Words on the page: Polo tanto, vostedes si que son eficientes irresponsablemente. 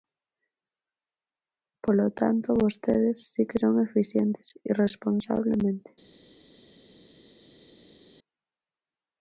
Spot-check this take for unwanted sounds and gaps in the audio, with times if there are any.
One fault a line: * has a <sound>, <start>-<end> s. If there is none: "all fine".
all fine